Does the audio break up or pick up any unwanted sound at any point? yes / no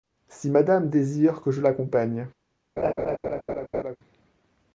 yes